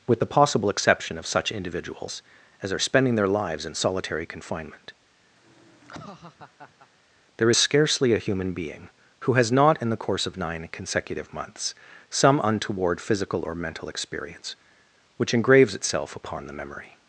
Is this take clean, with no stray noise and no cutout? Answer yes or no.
no